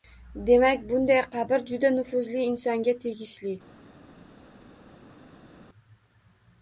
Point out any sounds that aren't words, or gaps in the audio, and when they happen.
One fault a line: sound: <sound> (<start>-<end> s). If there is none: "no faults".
no faults